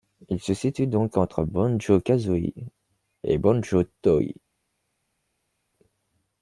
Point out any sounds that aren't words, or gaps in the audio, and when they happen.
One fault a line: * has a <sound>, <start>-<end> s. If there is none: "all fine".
all fine